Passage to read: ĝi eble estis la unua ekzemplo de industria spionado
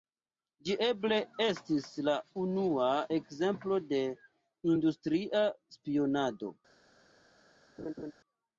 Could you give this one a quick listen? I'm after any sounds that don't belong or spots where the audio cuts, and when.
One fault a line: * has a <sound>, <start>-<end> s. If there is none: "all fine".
* has a laugh, 7.8-8.1 s